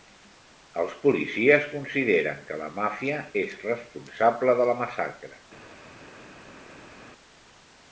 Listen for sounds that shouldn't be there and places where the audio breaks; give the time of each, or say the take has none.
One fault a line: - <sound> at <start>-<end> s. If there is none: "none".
none